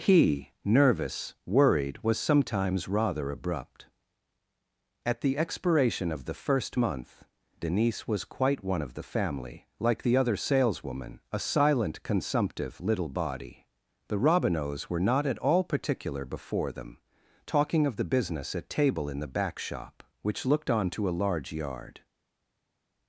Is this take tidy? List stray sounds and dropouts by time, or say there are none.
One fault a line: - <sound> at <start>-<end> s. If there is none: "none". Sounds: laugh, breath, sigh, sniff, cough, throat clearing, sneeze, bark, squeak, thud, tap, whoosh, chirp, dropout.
none